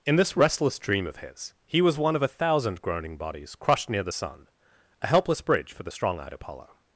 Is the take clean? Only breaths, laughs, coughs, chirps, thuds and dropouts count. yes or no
yes